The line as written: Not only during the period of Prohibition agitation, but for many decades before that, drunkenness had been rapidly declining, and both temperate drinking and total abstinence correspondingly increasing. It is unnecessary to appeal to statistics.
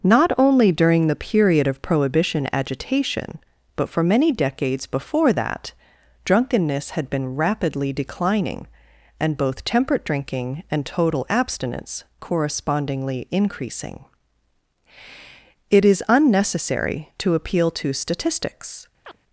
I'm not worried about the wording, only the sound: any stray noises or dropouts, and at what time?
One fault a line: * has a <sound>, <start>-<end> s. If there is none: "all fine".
* has a chirp, 19.0-19.2 s